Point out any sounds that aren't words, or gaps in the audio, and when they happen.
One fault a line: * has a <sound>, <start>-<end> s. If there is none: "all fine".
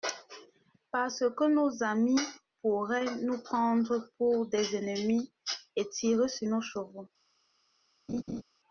* has a laugh, 8.1-8.4 s